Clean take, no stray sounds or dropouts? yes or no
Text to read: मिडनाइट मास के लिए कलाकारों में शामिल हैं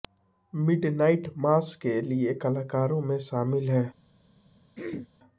no